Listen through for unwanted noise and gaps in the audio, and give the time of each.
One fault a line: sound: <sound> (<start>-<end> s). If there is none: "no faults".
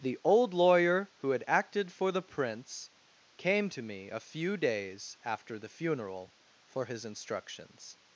no faults